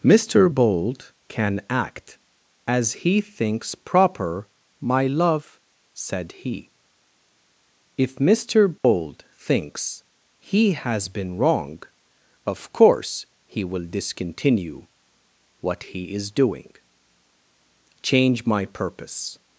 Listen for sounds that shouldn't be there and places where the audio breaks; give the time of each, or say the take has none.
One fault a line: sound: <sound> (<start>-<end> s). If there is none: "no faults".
sound: dropout (8.8-8.8 s)